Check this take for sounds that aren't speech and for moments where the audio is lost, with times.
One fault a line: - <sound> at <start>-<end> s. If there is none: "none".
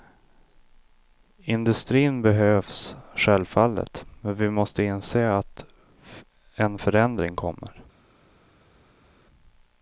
none